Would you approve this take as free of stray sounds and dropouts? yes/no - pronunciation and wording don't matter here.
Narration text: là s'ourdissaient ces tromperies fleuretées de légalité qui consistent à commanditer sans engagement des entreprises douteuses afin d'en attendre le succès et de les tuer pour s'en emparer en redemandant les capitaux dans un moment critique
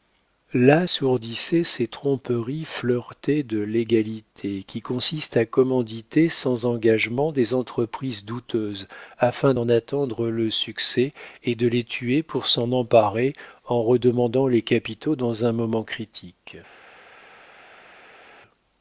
yes